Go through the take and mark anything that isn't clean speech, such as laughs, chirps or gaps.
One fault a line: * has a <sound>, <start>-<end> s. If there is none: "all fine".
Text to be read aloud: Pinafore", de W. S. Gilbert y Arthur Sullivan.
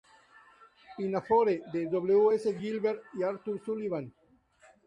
all fine